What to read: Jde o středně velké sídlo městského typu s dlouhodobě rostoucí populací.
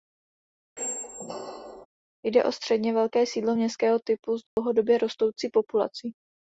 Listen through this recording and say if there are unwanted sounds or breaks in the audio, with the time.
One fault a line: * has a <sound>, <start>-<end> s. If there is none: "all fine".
* has a squeak, 0.8-1.9 s
* has a dropout, 4.5-4.6 s